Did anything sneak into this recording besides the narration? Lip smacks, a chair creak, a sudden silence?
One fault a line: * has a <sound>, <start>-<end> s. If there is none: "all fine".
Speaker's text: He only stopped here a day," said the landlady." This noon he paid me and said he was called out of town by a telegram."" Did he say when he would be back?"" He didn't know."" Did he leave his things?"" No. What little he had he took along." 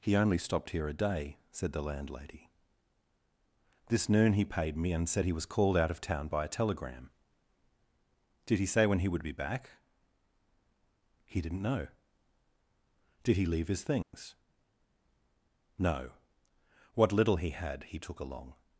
* has a dropout, 14.0-14.1 s